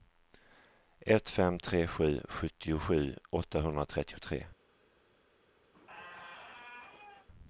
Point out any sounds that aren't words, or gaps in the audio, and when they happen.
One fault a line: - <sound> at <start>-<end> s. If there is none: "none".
- squeak at 5.7-7.3 s